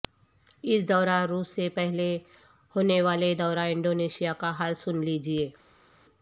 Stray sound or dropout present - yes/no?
no